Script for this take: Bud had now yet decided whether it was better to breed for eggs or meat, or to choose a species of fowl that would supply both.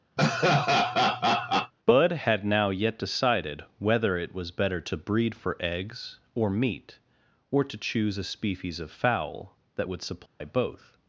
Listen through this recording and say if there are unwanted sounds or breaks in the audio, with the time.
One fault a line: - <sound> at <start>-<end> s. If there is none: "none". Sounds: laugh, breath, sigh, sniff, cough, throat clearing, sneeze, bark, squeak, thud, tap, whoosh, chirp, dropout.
- laugh at 0.2-1.7 s
- dropout at 10.3-10.4 s